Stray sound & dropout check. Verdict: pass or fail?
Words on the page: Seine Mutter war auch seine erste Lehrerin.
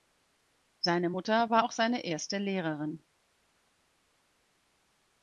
pass